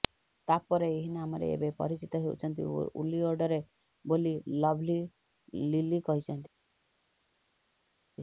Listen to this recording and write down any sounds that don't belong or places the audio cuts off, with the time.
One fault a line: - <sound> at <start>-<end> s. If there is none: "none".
none